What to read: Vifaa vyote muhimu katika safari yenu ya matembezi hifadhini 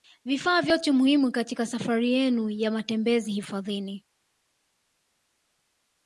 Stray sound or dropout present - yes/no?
no